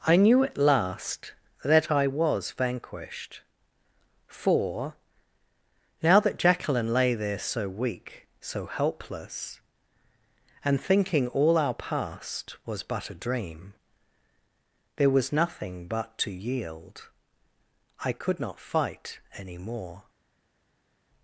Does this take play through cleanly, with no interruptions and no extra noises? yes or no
yes